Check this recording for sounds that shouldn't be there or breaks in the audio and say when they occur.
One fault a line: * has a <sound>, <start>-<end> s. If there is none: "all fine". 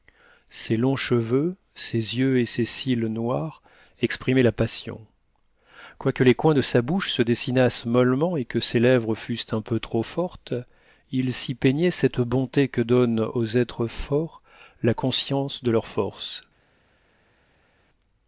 all fine